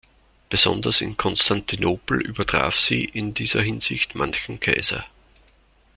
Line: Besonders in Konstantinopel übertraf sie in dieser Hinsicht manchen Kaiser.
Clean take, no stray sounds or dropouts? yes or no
yes